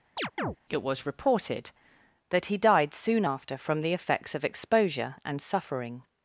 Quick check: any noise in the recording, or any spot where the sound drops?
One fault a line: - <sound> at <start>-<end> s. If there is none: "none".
- chirp at 0.2-0.6 s